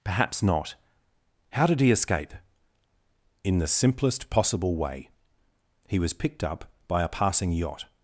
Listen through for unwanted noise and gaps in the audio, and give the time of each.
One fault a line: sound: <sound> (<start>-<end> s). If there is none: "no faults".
no faults